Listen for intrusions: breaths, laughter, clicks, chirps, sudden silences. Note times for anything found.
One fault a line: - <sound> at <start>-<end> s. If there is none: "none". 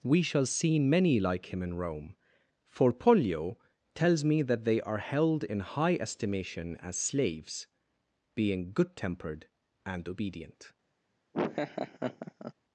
- laugh at 11.3-12.5 s